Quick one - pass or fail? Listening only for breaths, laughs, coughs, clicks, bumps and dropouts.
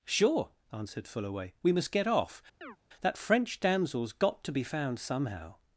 fail